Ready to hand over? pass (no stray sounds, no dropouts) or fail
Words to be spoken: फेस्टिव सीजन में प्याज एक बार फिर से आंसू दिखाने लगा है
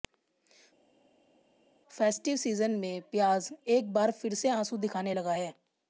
pass